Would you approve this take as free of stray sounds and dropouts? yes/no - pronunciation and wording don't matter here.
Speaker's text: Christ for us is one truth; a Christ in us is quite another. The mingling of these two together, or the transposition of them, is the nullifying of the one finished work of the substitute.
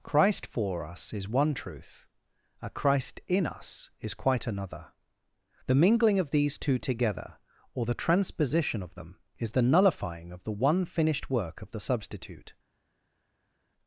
yes